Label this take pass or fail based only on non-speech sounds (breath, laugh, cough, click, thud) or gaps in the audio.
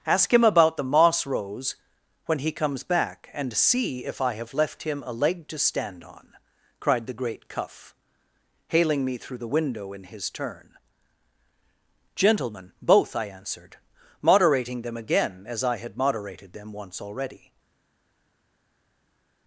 pass